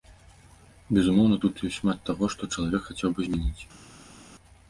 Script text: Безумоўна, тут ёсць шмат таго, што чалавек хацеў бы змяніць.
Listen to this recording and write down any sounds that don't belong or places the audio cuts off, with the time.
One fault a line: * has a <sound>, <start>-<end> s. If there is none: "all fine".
all fine